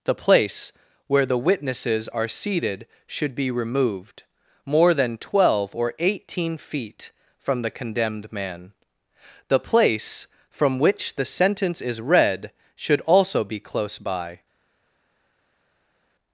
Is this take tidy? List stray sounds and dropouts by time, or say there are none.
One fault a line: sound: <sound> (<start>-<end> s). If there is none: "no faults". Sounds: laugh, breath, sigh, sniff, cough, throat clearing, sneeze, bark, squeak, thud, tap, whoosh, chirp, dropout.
no faults